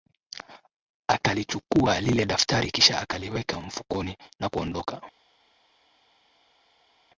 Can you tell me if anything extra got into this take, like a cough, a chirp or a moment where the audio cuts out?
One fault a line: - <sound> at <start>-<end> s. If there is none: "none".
none